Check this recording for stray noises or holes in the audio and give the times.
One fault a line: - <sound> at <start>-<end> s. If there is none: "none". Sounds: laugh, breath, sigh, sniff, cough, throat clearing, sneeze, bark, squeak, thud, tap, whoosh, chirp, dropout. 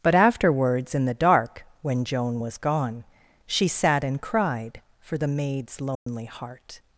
- dropout at 5.9-6.1 s